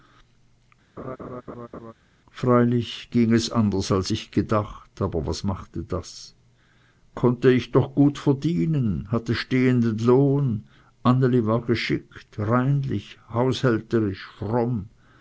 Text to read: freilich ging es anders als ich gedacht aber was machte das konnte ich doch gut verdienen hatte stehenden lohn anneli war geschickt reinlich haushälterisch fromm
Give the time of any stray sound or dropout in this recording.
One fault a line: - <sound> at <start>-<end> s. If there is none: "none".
- laugh at 1.0-1.9 s